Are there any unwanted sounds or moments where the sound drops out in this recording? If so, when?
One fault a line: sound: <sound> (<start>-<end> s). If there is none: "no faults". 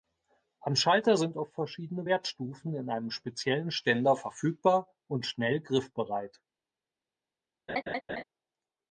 sound: laugh (7.7-8.2 s)